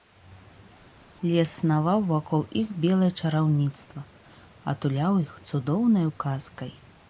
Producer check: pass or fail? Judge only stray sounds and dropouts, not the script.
pass